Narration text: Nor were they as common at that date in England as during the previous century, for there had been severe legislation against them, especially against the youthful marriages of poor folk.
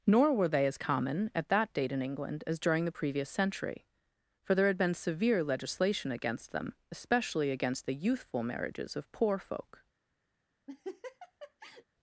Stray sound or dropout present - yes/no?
yes